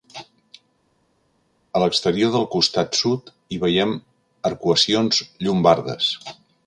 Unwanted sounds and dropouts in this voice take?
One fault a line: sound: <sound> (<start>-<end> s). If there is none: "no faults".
no faults